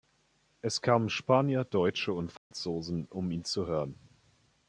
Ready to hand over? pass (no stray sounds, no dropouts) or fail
fail